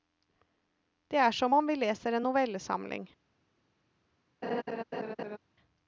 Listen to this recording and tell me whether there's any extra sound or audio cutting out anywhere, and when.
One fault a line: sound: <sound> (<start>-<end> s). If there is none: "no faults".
sound: laugh (4.4-5.4 s)